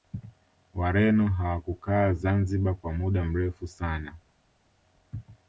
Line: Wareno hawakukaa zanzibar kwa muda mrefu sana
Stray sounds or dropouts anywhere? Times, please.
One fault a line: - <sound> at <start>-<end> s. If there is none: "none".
none